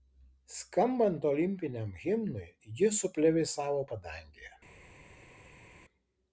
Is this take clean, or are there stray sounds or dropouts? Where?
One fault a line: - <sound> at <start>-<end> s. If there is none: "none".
none